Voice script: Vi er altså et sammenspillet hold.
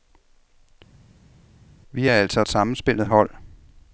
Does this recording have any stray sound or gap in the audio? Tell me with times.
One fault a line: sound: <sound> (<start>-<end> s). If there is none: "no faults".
no faults